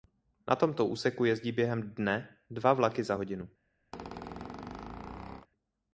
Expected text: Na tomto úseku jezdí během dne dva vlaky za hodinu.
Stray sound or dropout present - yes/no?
yes